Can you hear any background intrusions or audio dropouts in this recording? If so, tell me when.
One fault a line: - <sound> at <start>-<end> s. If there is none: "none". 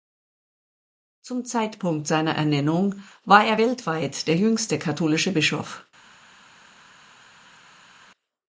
none